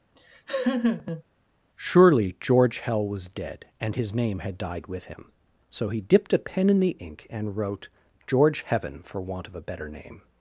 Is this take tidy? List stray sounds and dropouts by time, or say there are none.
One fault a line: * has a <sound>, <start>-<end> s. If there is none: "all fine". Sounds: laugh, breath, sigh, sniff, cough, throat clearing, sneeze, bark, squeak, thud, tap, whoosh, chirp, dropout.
* has a laugh, 0.2-1.2 s